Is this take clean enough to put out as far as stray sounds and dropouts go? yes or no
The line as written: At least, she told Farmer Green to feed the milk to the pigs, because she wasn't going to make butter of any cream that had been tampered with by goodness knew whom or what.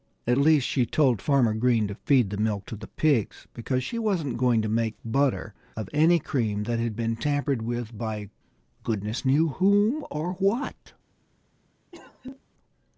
no